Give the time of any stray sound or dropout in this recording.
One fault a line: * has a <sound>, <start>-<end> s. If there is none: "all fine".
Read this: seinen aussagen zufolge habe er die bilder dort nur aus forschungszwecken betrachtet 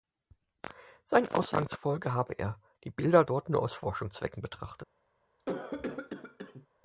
* has a cough, 5.4-6.7 s